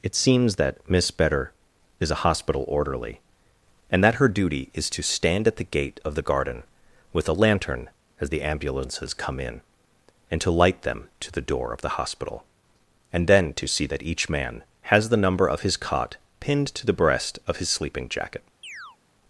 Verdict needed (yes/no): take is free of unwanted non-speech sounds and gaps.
no